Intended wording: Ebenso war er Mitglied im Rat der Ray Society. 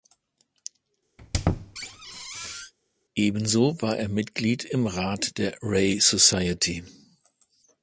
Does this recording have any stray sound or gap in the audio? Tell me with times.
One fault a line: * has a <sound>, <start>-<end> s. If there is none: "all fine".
* has a squeak, 1.2-2.7 s